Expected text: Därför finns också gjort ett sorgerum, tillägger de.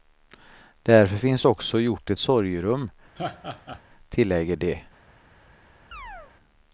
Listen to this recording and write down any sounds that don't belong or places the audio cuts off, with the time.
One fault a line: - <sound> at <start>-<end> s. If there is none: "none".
- laugh at 3.2-3.8 s
- chirp at 5.9-6.3 s